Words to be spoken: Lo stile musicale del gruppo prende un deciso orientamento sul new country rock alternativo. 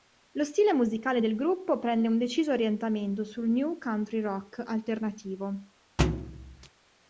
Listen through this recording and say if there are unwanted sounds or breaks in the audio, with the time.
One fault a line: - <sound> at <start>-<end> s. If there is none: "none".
- thud at 6.0-6.7 s